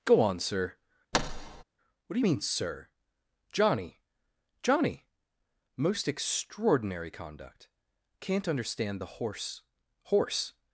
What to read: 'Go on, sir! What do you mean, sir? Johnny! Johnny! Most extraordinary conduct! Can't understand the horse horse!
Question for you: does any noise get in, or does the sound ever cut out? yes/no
yes